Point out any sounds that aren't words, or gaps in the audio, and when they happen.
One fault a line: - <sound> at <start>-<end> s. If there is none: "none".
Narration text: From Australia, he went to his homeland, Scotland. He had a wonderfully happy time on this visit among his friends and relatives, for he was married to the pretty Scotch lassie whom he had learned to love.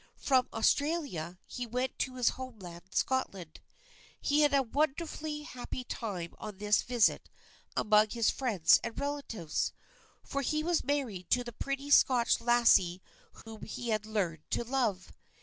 - dropout at 13.4-13.5 s